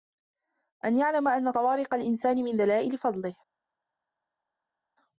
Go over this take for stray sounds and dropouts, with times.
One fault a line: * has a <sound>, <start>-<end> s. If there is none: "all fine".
all fine